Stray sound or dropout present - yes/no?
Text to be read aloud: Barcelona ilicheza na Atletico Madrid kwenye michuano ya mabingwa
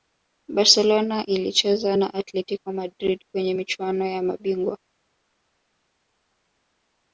no